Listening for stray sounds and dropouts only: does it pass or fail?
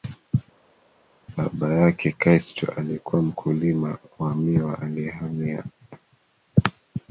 pass